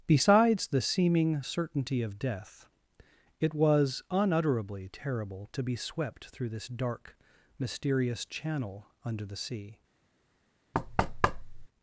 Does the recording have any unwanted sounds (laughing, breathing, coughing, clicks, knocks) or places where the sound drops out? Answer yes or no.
yes